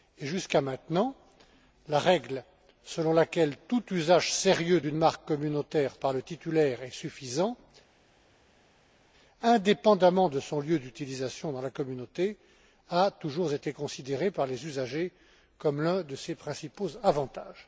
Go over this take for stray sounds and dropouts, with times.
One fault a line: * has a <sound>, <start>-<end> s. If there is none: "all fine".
all fine